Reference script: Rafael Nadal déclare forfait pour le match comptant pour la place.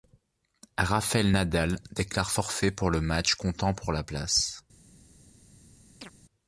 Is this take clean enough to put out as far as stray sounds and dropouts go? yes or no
no